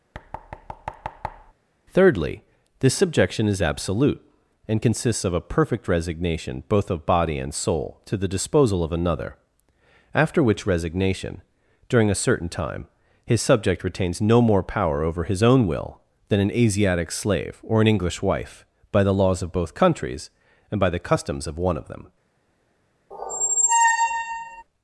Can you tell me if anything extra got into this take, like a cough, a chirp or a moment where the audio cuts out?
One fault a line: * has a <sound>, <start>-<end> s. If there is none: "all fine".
* has a thud, 0.1-1.5 s
* has a squeak, 23.1-24.6 s